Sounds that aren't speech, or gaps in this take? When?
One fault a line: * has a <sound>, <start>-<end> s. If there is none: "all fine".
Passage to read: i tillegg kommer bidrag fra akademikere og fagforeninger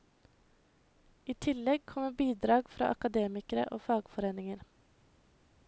all fine